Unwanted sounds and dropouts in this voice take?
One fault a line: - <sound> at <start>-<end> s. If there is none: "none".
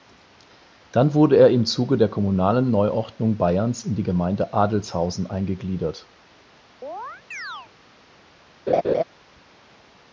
- chirp at 6.8-7.7 s
- laugh at 8.7-9.0 s